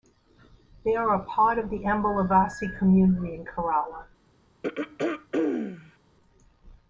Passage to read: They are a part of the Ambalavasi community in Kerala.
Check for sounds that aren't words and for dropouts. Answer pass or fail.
fail